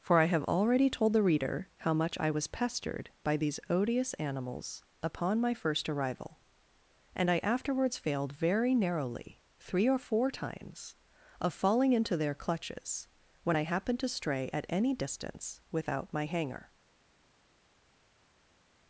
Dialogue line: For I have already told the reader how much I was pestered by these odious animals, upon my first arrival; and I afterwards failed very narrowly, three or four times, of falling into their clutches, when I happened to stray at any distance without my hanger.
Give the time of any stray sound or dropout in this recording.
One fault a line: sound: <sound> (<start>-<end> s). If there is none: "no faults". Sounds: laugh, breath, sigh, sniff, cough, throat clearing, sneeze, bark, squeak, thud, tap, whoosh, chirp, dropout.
no faults